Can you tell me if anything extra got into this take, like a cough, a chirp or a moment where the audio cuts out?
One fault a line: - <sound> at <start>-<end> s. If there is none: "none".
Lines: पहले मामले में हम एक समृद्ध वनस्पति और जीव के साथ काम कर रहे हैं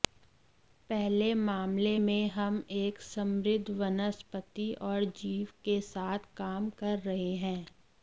none